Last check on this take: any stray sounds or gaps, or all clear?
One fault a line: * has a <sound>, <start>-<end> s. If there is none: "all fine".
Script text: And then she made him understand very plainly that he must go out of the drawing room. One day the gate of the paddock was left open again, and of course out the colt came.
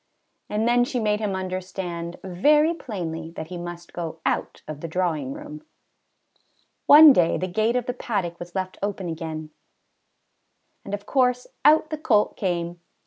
all fine